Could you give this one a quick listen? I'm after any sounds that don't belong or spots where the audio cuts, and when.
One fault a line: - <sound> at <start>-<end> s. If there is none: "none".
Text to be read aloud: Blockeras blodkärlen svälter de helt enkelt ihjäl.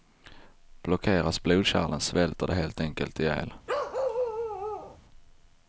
- bark at 3.7-5.0 s